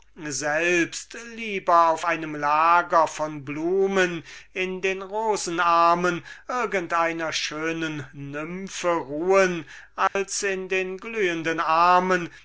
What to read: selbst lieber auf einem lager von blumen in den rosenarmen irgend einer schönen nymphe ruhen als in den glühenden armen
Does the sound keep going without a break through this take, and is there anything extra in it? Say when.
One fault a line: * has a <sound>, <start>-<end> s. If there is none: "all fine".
* has a dropout, 10.1-10.2 s